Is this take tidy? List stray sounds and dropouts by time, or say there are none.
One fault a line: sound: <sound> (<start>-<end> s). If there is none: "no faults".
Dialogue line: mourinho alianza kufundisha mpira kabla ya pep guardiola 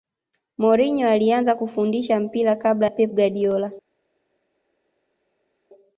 no faults